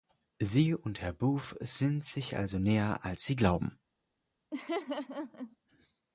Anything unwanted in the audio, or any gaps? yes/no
yes